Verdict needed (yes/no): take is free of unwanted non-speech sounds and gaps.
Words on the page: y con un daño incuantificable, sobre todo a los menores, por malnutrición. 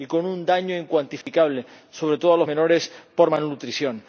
no